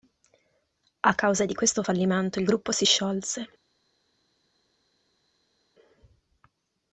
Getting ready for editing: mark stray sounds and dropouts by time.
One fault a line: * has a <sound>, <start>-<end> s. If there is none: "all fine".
all fine